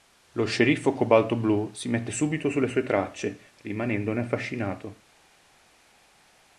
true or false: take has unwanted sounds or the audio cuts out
false